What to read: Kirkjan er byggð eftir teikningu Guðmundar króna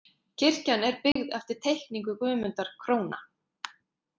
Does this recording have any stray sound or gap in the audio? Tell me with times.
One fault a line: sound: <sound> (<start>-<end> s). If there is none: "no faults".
sound: dropout (1.1-1.2 s)